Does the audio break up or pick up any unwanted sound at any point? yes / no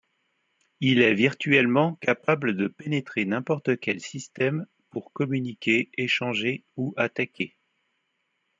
no